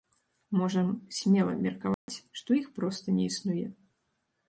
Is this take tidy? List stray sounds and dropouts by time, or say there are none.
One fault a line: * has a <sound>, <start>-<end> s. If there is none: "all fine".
* has a dropout, 1.9-2.1 s